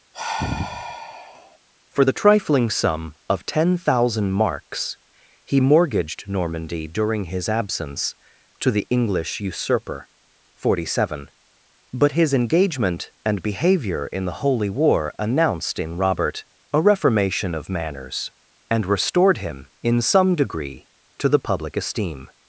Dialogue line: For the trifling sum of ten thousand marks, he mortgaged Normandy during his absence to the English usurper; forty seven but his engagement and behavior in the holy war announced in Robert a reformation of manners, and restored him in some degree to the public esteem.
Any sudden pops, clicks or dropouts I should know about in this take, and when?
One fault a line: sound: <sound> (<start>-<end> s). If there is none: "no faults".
sound: sigh (0.1-1.6 s)